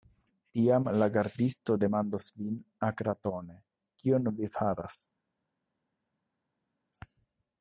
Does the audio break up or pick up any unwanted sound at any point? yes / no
no